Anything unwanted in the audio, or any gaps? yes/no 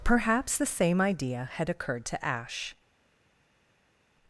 no